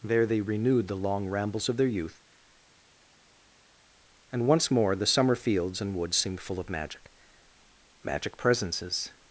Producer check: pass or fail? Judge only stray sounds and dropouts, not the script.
pass